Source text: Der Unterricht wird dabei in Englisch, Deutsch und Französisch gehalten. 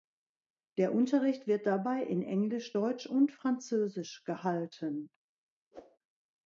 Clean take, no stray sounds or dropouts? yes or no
no